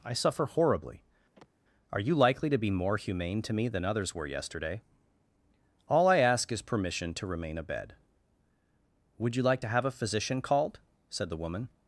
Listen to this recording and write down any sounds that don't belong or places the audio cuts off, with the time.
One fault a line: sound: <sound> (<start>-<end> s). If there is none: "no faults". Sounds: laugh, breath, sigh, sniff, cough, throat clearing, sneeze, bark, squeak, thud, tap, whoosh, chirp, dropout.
sound: sigh (1.3-1.5 s)